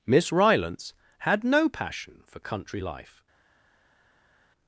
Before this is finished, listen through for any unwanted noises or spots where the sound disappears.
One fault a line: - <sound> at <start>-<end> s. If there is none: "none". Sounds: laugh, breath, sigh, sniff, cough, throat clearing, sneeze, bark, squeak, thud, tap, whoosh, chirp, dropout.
none